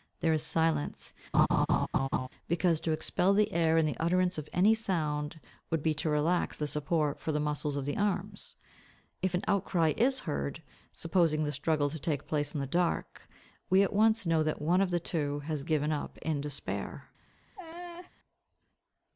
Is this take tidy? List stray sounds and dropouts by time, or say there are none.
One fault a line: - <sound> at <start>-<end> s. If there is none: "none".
- laugh at 1.3-2.3 s
- laugh at 17.6-18.1 s